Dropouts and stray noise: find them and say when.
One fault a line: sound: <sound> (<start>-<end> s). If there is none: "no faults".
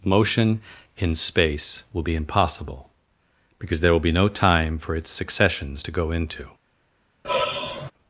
sound: sigh (7.2-7.9 s)